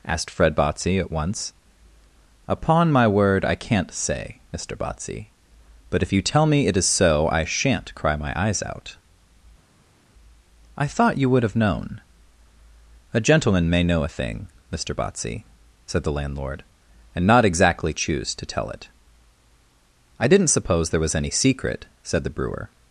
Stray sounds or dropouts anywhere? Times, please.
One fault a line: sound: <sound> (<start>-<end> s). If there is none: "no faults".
no faults